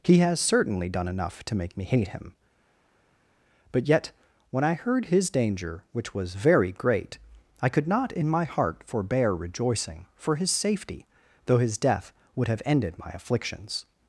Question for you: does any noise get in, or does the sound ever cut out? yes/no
no